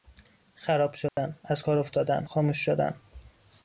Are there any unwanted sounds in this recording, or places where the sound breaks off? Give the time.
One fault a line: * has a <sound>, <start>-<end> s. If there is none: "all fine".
* has a dropout, 1.1-1.2 s